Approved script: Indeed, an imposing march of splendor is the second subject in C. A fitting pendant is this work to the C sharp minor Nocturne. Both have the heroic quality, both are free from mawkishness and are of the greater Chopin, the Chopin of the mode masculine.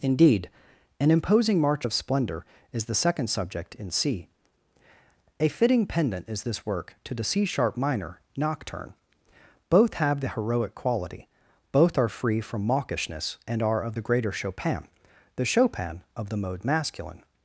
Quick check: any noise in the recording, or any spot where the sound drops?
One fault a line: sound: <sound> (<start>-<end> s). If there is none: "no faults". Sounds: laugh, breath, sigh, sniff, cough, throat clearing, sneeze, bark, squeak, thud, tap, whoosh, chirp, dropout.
no faults